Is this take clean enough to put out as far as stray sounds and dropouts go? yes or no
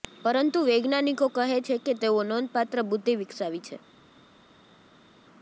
yes